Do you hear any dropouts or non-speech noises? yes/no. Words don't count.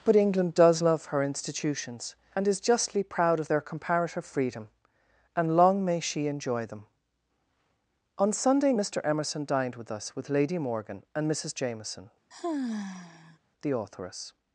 yes